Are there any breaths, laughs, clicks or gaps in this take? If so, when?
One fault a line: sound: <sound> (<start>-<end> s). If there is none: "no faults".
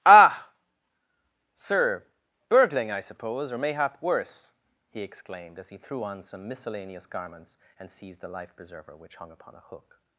no faults